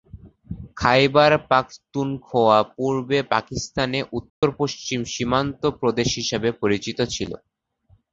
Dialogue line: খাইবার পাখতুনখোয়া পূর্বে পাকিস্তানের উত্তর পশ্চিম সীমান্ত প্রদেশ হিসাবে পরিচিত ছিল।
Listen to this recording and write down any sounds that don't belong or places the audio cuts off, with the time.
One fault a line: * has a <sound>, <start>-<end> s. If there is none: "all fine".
* has a dropout, 4.3-4.4 s